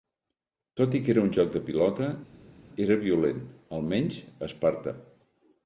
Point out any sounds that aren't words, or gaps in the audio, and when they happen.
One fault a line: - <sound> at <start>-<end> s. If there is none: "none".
none